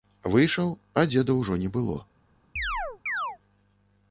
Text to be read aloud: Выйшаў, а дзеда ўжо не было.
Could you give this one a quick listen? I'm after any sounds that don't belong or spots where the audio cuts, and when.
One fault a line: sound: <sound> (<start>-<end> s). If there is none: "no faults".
sound: chirp (2.6-3.4 s)